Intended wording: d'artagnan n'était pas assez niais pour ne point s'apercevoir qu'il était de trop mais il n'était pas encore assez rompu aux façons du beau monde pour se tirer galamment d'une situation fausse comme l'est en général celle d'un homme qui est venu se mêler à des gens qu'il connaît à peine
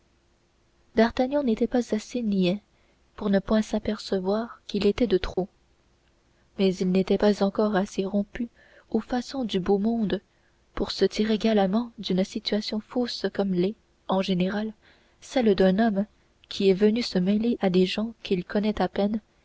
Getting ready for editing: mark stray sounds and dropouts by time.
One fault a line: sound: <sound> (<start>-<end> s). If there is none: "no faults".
sound: dropout (5.3-5.4 s)